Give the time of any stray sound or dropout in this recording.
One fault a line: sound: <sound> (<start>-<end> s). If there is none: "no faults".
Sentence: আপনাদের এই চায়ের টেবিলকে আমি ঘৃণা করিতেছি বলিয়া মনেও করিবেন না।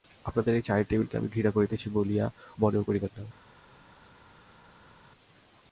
no faults